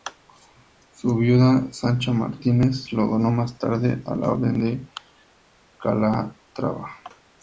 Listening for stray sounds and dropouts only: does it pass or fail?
pass